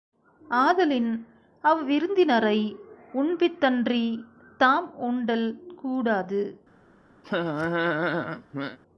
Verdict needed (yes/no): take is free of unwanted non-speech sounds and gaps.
no